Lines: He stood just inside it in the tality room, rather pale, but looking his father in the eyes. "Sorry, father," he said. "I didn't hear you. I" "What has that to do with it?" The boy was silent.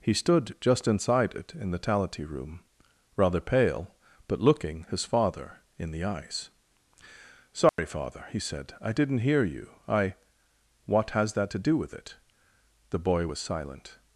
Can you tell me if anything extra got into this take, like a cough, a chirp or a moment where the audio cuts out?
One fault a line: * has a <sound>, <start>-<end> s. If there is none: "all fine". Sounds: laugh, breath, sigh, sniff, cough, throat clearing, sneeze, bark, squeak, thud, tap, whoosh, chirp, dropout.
* has a dropout, 7.7-7.8 s